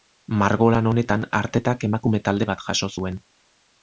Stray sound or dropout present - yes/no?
no